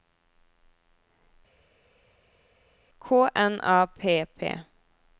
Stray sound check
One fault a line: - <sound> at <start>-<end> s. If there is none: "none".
none